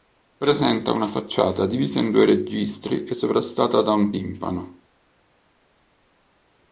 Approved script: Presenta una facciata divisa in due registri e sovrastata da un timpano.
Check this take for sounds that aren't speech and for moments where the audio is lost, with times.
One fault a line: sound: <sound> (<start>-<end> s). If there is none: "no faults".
no faults